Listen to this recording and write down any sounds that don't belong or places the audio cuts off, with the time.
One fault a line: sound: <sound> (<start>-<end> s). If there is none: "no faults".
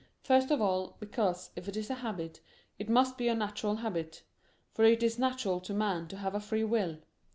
no faults